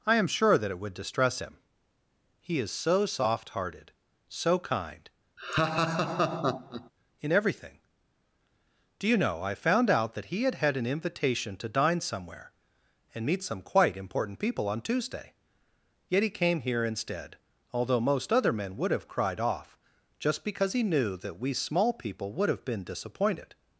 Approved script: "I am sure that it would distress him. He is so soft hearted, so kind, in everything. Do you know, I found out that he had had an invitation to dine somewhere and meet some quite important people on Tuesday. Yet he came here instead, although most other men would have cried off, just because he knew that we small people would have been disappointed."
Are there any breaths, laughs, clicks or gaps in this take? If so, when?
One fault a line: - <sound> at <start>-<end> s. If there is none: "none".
- laugh at 5.4-6.9 s